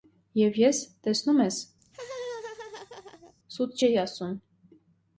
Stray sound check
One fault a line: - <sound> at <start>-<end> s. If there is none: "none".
- laugh at 1.8-3.3 s